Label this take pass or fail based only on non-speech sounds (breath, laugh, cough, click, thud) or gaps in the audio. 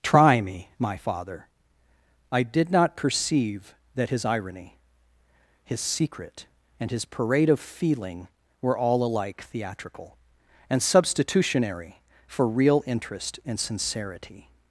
pass